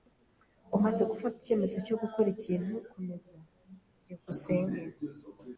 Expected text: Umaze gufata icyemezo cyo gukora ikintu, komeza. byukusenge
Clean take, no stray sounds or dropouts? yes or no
yes